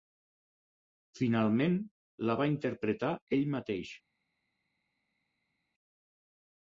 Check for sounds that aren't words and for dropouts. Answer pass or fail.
pass